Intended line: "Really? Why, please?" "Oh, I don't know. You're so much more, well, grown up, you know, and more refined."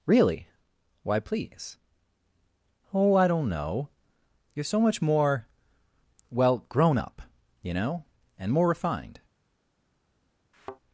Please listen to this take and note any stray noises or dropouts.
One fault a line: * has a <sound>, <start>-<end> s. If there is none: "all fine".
* has a thud, 10.5-10.8 s